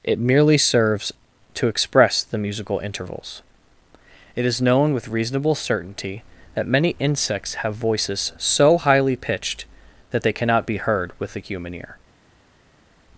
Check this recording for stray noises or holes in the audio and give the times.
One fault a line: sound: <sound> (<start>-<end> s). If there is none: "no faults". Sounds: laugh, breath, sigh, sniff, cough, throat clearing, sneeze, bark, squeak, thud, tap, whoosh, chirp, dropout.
no faults